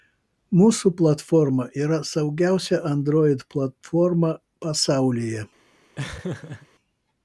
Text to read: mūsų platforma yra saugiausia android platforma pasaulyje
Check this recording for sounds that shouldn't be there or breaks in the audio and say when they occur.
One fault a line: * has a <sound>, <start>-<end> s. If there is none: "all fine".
* has a laugh, 6.0-6.7 s